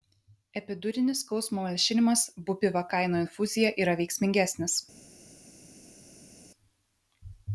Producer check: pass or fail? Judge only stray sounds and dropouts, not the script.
pass